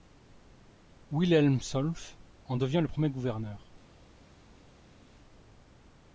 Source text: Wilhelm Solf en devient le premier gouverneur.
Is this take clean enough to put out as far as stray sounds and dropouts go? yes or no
yes